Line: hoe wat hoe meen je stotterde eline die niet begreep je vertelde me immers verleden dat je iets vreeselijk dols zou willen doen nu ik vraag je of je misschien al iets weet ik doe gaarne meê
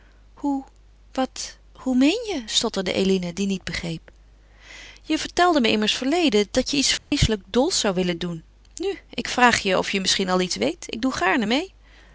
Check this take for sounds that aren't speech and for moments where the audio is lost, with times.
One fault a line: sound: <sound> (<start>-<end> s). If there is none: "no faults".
sound: dropout (7.0-7.1 s)